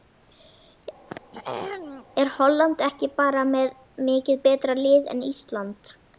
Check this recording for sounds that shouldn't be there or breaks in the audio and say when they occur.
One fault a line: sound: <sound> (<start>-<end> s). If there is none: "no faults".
sound: throat clearing (1.1-2.1 s)